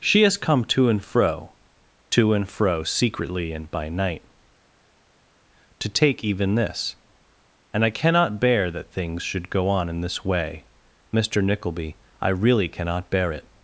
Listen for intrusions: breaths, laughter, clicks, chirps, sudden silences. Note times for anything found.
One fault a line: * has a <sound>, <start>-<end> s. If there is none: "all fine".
all fine